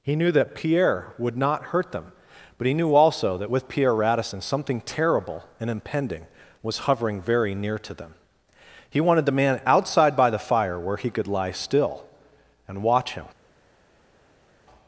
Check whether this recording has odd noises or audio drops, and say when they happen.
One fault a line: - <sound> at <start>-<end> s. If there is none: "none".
none